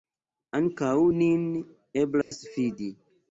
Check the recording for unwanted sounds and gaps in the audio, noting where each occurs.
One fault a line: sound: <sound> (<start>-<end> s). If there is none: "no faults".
sound: dropout (2.2-2.3 s)